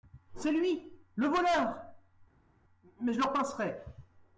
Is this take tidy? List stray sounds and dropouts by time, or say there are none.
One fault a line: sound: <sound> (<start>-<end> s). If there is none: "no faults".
no faults